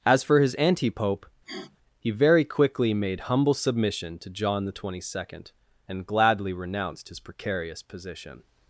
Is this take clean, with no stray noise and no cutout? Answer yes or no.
no